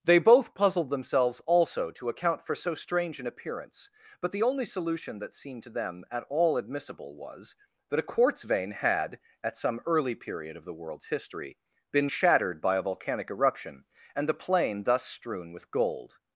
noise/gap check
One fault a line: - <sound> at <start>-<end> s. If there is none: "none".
none